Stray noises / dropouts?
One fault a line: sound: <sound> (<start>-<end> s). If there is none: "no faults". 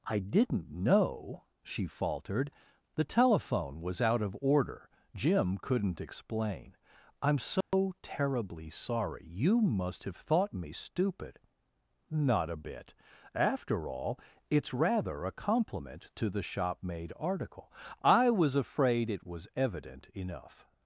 sound: dropout (7.6-7.7 s)